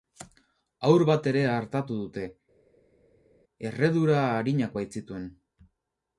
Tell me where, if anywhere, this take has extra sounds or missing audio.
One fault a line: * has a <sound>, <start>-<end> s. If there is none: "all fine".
all fine